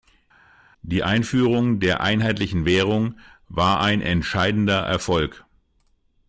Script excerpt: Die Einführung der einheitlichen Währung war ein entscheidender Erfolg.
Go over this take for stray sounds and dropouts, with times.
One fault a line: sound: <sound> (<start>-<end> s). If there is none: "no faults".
no faults